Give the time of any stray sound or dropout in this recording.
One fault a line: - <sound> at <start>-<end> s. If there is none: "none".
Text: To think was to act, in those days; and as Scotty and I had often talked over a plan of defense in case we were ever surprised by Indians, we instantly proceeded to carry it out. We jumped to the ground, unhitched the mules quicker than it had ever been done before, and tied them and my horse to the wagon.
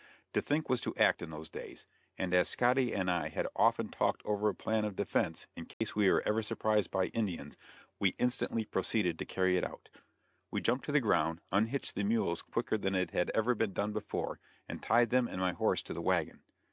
- dropout at 5.7-5.8 s